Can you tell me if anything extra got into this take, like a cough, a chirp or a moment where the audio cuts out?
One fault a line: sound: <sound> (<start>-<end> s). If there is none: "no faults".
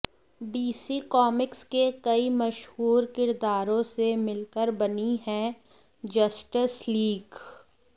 no faults